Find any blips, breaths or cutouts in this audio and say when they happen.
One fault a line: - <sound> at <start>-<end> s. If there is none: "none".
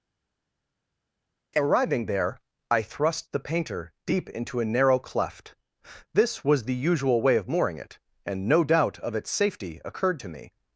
none